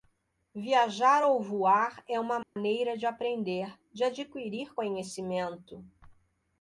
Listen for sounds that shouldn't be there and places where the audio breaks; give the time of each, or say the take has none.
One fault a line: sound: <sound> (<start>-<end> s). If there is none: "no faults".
sound: dropout (2.4-2.6 s)